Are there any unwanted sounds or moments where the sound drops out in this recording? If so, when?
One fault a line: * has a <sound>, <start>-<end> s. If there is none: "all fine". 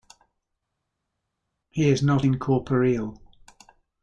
all fine